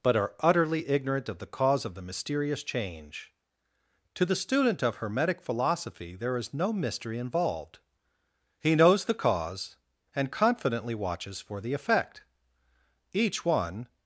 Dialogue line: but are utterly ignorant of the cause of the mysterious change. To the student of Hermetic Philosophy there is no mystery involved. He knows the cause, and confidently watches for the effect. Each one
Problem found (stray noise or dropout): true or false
false